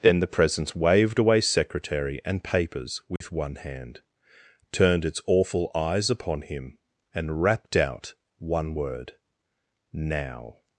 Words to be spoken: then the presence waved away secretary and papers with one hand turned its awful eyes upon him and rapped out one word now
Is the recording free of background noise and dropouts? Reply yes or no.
no